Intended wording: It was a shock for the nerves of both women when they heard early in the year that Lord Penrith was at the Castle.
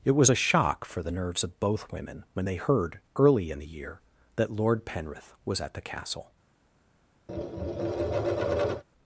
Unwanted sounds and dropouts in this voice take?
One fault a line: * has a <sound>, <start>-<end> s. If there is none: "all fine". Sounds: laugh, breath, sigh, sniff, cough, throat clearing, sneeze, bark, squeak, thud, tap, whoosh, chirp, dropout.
* has a tap, 7.3-8.8 s